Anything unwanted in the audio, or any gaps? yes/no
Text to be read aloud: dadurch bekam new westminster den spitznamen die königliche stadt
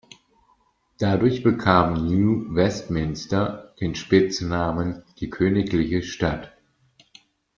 no